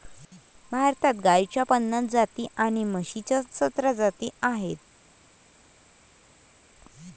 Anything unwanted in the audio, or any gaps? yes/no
no